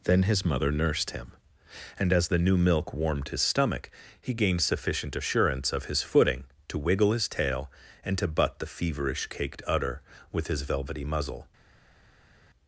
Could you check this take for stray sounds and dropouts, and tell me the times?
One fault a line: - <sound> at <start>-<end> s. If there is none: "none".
none